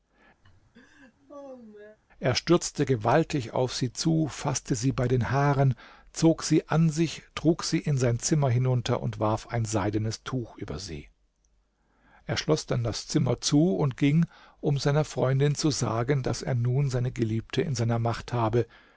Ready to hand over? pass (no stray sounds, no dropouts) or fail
fail